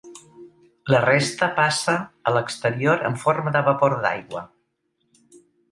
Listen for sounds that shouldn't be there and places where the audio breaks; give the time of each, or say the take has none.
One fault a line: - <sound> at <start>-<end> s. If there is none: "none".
none